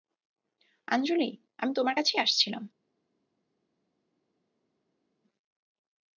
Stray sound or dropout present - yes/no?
no